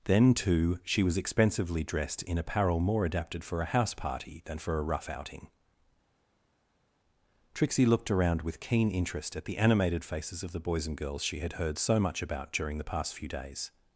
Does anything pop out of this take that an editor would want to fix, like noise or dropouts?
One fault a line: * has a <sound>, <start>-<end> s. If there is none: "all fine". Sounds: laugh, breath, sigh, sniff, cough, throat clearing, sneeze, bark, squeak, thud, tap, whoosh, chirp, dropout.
all fine